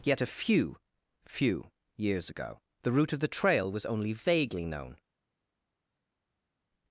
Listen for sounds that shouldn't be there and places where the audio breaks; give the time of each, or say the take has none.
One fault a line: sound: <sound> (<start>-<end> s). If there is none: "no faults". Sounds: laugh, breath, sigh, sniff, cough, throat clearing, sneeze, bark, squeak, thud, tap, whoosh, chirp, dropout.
no faults